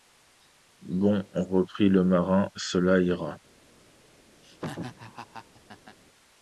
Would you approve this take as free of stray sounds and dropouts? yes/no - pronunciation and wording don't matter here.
no